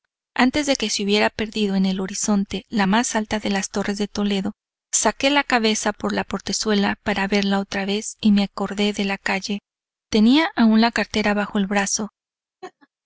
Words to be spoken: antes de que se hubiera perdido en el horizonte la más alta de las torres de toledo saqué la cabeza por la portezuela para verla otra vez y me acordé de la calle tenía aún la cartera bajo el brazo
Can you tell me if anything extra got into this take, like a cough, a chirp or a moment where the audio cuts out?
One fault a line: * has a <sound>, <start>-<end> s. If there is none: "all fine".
* has a laugh, 12.6-12.9 s